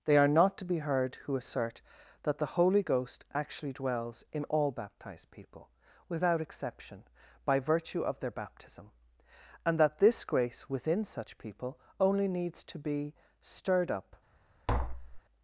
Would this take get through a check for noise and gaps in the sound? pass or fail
fail